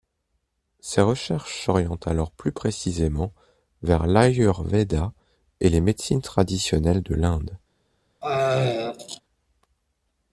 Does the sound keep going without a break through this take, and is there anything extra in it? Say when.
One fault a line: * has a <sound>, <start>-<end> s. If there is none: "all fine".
* has a throat clearing, 8.2-9.2 s